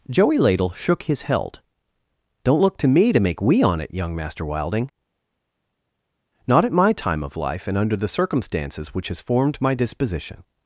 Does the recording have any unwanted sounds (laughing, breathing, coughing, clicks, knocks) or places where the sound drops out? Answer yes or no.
no